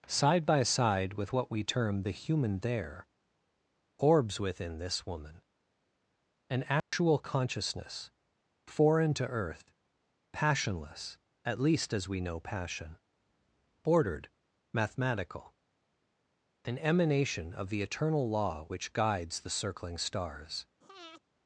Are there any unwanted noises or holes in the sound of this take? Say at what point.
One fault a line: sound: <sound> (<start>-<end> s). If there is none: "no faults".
sound: dropout (6.8-6.9 s)
sound: breath (20.8-21.2 s)